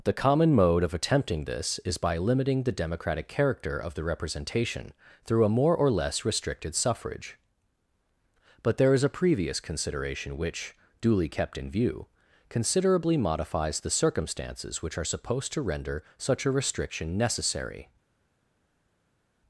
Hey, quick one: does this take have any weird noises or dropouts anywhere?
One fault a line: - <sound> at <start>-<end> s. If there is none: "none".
none